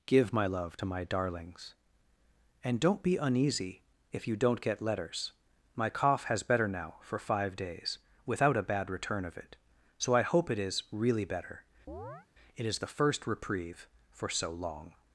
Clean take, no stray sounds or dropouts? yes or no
no